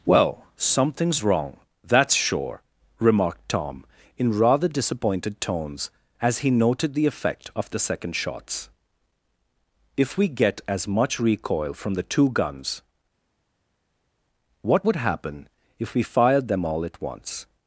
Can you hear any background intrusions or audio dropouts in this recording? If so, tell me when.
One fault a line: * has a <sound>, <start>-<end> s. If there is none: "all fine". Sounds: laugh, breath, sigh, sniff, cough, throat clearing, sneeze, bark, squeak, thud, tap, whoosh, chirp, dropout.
all fine